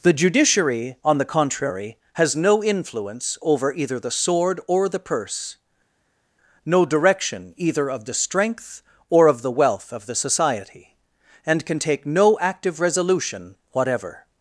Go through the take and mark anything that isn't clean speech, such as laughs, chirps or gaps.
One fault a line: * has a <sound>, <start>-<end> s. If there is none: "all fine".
all fine